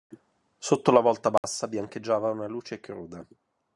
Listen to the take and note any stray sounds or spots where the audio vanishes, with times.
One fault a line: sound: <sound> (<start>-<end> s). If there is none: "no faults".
sound: dropout (1.4-1.4 s)